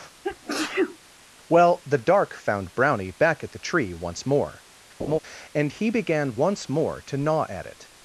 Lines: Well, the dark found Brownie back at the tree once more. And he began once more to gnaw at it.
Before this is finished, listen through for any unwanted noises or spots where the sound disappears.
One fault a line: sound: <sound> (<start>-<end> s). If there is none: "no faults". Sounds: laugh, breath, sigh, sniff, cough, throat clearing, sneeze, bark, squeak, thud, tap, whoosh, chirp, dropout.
sound: sneeze (0.2-1.0 s)
sound: laugh (5.0-5.2 s)